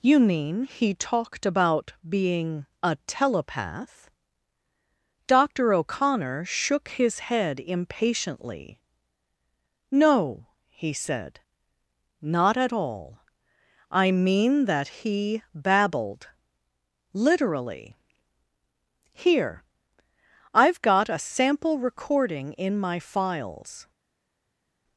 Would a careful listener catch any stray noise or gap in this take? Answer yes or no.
no